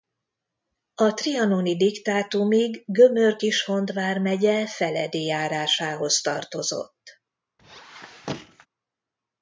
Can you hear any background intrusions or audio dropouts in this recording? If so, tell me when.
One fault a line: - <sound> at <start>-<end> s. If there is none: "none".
- squeak at 7.6-8.7 s